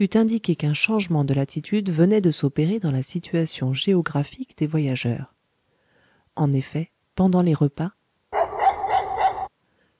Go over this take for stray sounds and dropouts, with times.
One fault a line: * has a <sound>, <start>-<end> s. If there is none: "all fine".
* has a bark, 8.3-9.5 s